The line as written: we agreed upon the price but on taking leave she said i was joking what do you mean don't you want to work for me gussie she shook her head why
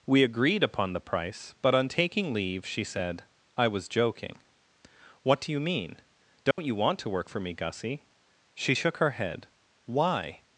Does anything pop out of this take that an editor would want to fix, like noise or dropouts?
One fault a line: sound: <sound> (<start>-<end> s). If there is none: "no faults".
sound: dropout (6.5-6.6 s)